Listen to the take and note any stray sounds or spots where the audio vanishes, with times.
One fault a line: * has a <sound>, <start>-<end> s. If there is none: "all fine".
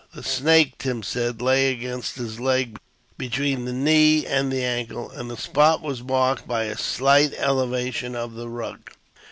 all fine